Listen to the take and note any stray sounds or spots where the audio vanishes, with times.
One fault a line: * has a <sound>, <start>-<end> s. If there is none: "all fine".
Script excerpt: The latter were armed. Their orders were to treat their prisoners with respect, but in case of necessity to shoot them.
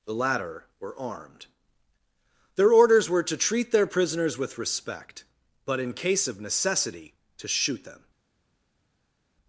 all fine